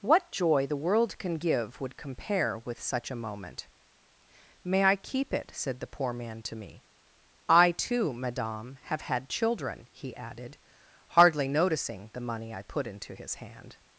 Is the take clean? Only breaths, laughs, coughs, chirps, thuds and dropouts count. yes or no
yes